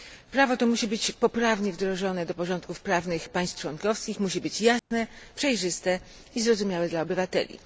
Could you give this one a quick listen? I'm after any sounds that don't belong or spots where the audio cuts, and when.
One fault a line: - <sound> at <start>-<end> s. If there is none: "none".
- dropout at 4.8-4.9 s